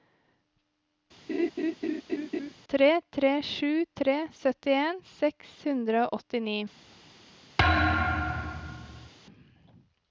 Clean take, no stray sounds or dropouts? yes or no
no